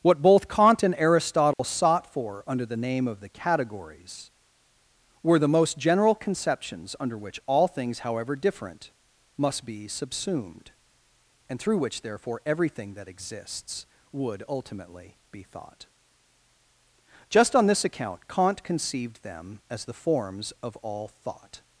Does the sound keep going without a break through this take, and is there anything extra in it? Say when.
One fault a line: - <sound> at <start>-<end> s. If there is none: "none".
- dropout at 1.5-1.6 s